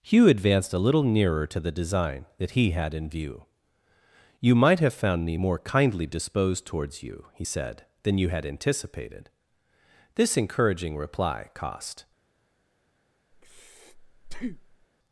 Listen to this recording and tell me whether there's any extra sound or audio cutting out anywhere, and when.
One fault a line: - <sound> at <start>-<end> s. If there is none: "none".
- breath at 13.3-14.9 s